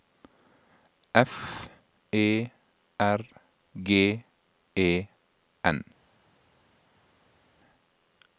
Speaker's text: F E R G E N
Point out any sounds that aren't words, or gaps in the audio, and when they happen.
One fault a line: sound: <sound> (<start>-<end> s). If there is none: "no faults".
no faults